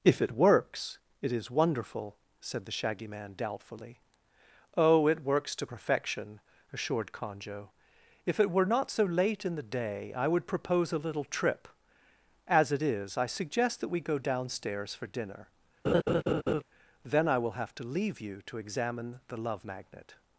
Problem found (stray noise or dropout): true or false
true